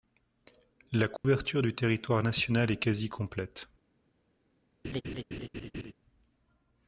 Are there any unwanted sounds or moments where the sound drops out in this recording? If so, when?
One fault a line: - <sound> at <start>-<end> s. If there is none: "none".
- dropout at 1.2-1.2 s
- laugh at 4.8-5.9 s